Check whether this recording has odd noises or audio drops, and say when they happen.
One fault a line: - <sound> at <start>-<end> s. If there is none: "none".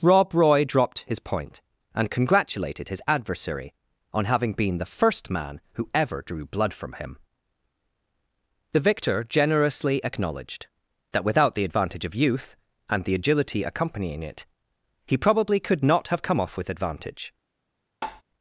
- tap at 18.0-18.2 s